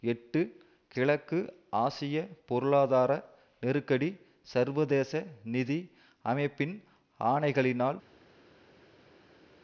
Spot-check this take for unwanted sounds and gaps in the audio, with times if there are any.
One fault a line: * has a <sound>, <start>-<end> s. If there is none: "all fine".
all fine